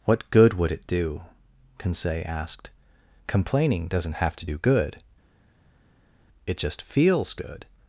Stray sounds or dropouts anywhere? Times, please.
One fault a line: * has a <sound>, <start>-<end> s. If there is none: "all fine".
all fine